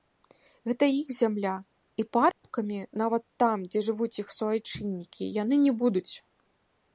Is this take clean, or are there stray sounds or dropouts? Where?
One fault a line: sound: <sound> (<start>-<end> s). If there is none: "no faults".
sound: dropout (2.3-2.4 s)